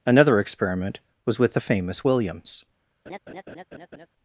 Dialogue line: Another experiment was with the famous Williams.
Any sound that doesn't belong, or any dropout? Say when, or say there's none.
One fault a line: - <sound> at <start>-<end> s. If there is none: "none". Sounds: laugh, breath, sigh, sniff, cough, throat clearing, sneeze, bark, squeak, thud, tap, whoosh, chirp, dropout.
- laugh at 3.1-4.1 s